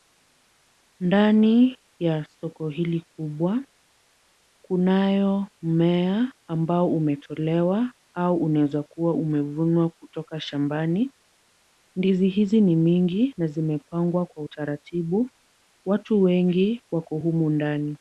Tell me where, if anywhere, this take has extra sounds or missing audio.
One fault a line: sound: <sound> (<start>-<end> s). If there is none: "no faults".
no faults